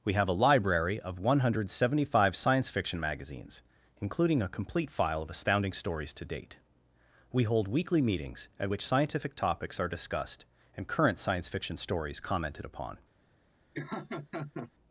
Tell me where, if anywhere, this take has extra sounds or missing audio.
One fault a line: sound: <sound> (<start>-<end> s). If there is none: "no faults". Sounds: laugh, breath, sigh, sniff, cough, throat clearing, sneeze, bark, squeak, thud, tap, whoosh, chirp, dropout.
sound: laugh (13.7-14.7 s)